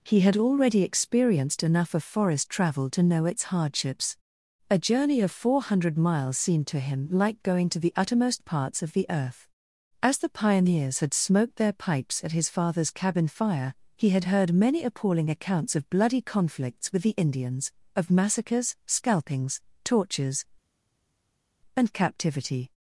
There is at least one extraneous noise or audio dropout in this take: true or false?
false